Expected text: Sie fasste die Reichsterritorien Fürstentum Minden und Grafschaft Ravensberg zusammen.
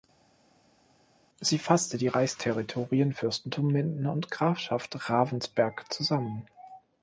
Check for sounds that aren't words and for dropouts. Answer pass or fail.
pass